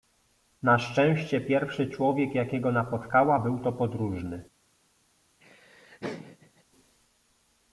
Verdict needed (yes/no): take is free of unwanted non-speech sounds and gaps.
no